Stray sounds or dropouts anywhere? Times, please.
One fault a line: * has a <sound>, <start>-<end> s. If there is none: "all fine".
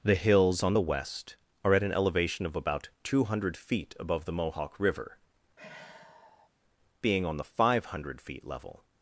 * has a sigh, 5.6-6.5 s